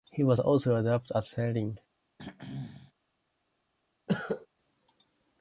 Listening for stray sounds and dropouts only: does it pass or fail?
fail